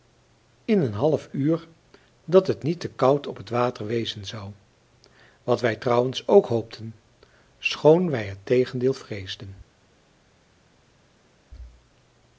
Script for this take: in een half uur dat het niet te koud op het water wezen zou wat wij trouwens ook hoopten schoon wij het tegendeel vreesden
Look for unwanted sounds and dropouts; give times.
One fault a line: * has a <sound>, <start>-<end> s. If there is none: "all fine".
all fine